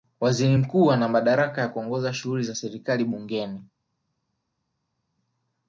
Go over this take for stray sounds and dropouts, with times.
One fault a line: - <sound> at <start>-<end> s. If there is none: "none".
none